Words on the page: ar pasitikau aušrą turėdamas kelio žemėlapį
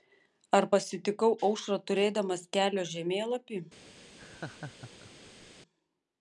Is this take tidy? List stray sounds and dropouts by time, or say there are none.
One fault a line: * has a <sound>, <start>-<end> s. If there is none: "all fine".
* has a laugh, 4.2-5.5 s